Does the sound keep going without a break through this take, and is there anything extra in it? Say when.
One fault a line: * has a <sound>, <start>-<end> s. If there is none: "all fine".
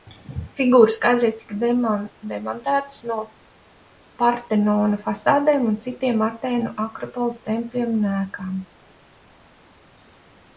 all fine